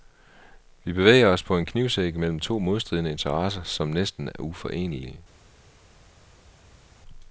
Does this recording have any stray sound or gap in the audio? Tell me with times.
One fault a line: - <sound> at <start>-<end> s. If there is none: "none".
none